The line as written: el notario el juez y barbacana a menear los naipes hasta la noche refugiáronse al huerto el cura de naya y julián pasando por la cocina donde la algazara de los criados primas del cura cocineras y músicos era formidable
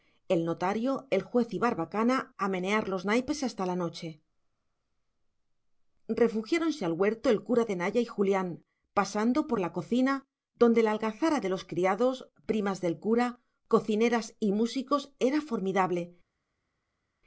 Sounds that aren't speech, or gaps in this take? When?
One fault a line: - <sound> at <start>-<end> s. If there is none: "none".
none